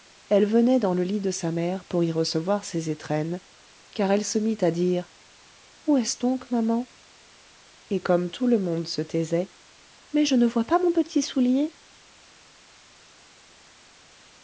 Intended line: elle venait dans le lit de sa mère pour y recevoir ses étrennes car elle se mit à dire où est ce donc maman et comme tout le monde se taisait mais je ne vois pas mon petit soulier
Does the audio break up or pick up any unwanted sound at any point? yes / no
no